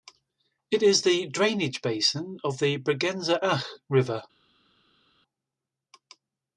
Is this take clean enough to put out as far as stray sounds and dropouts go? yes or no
yes